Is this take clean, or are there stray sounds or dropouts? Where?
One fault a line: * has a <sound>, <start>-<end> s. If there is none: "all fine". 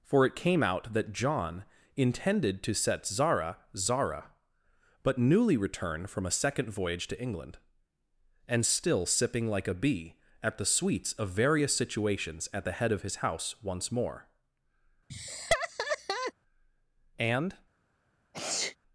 * has a laugh, 15.1-16.3 s
* has a sneeze, 18.3-18.8 s